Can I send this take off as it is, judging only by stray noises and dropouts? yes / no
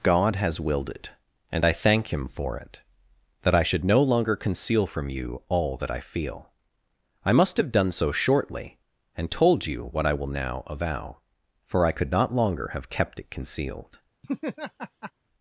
no